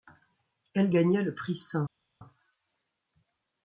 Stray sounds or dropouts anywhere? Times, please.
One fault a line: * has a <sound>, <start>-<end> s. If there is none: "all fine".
all fine